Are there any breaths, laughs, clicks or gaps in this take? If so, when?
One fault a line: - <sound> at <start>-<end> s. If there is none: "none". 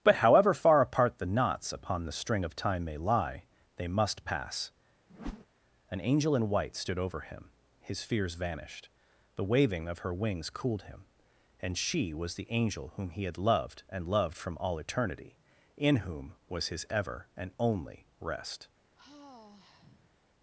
- whoosh at 5.1-5.5 s
- sigh at 18.9-20.1 s